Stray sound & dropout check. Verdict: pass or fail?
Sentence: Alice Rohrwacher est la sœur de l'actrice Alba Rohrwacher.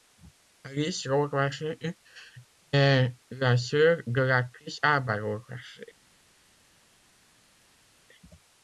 pass